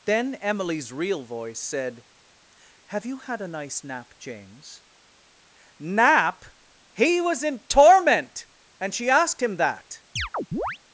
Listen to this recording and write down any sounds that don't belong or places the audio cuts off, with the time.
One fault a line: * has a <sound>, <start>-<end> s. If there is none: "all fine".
* has a chirp, 10.2-10.8 s